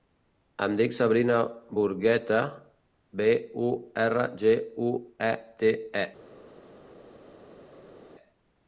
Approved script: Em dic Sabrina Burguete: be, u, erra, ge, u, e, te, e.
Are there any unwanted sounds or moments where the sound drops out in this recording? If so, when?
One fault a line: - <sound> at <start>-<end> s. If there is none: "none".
none